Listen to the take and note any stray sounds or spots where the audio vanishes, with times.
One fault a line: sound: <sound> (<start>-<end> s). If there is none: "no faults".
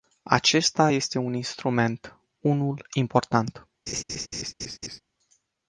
sound: laugh (3.9-5.0 s)